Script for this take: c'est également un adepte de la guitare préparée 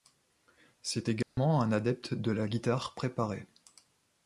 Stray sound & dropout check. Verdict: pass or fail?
fail